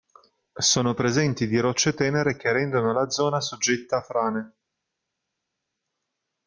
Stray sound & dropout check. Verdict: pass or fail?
pass